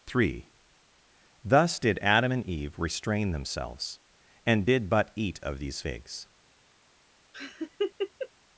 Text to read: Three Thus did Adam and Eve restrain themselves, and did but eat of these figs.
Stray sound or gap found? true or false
true